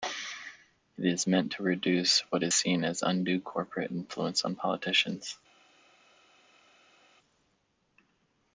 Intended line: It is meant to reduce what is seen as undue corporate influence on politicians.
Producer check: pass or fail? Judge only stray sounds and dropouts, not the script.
pass